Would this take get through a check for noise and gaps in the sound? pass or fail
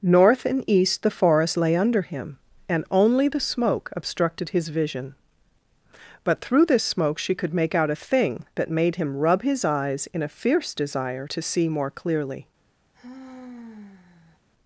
fail